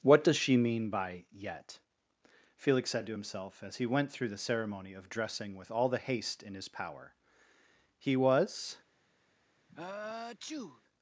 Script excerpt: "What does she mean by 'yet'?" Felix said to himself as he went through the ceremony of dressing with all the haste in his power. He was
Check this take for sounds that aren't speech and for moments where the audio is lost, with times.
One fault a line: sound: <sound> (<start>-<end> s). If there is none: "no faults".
sound: sneeze (9.7-10.8 s)